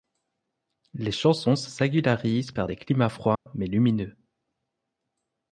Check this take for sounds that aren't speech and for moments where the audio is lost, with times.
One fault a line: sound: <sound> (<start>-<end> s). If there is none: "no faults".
sound: dropout (3.4-3.5 s)